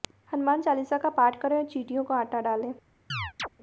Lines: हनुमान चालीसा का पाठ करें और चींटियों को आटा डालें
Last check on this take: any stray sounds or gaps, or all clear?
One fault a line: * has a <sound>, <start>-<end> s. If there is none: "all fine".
* has a chirp, 3.1-3.5 s